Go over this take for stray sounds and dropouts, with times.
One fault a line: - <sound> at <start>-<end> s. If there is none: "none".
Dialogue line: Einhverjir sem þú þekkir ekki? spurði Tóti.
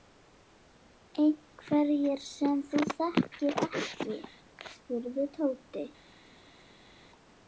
none